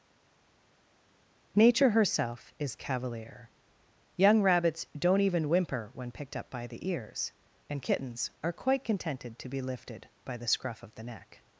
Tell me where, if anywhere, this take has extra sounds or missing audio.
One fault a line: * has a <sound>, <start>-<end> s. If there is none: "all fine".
all fine